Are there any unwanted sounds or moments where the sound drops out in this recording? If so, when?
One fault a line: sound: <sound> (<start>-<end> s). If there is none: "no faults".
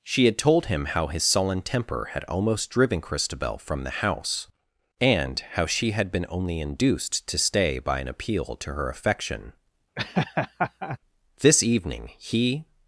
sound: laugh (10.0-11.0 s)